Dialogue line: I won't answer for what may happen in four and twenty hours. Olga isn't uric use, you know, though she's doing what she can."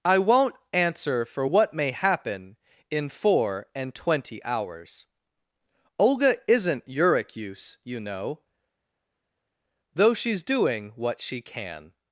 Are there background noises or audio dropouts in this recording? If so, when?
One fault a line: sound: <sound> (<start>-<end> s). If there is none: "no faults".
no faults